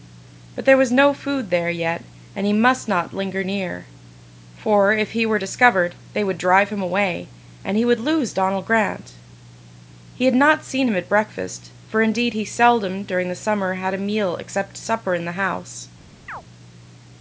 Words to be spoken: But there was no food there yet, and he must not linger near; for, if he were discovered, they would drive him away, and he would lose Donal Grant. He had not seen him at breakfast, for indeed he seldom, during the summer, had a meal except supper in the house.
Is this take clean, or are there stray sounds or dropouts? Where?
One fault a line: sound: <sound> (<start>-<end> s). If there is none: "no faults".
sound: chirp (16.3-16.4 s)